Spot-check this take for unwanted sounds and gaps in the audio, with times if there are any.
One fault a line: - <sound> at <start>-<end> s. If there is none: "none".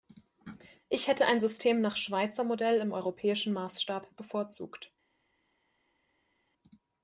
none